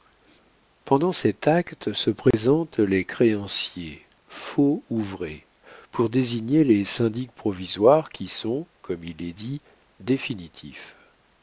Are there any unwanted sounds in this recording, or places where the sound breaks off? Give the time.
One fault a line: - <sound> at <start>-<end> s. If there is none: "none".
- dropout at 2.3-2.3 s